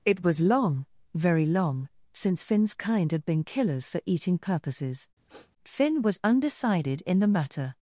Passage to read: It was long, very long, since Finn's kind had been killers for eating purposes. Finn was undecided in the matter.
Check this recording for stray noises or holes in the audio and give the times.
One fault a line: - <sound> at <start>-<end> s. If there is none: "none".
- sniff at 5.3-5.5 s